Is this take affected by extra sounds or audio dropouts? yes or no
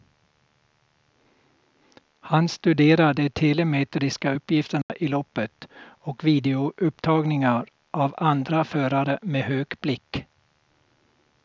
yes